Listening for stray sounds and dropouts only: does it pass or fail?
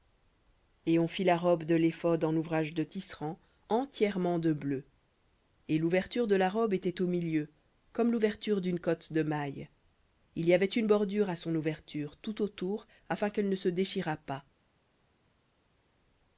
pass